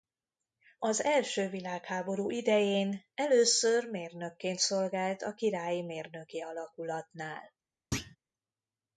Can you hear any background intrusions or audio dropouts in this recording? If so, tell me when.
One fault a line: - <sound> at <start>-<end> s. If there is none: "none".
- thud at 7.9-8.2 s